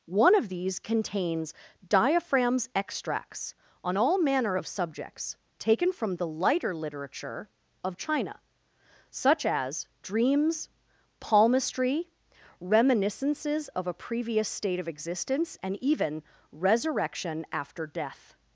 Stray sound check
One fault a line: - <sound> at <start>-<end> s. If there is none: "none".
none